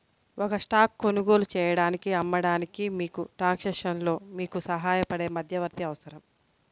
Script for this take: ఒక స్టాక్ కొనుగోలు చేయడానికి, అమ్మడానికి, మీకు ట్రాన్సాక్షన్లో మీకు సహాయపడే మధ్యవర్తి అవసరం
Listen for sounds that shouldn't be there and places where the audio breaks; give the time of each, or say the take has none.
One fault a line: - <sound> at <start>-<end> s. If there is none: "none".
none